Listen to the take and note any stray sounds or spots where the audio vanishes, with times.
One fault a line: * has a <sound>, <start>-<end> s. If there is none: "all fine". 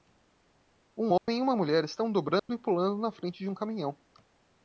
* has a dropout, 1.2-1.3 s
* has a dropout, 2.4-2.5 s